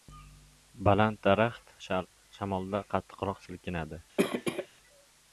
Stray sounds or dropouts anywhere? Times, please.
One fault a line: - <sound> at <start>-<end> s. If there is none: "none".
- cough at 4.2-4.7 s